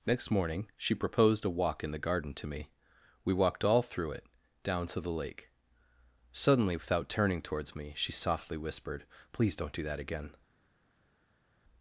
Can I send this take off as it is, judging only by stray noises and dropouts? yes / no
yes